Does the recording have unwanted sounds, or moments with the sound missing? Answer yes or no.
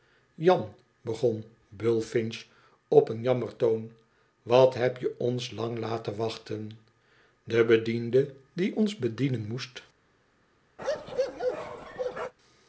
yes